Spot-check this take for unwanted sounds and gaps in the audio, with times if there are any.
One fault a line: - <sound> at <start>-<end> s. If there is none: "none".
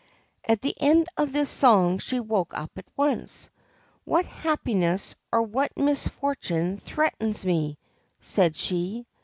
none